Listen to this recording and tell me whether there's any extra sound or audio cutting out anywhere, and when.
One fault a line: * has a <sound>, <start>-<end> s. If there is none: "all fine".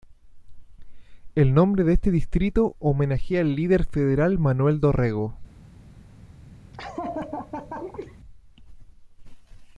* has a laugh, 6.7-8.2 s